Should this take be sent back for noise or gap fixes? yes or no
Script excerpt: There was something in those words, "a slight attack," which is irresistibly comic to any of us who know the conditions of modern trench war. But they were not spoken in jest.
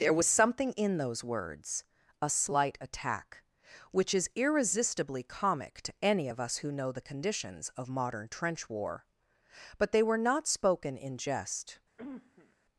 yes